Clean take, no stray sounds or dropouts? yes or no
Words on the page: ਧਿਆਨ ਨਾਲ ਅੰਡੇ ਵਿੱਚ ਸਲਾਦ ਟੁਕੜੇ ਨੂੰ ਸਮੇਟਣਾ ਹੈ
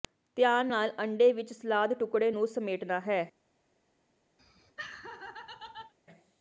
no